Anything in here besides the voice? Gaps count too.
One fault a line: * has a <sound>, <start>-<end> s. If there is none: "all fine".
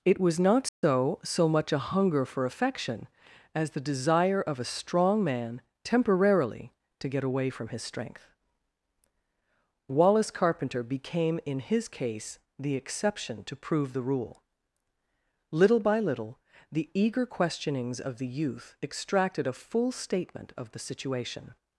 * has a dropout, 0.7-0.8 s